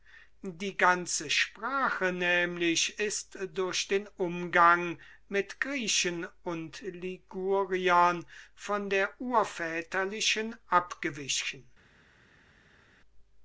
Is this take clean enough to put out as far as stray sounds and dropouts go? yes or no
yes